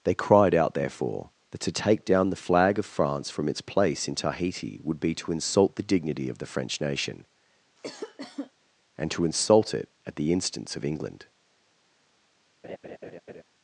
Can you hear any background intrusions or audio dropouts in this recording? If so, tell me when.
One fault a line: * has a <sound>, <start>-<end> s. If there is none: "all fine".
* has a cough, 7.8-8.5 s
* has a laugh, 12.6-13.4 s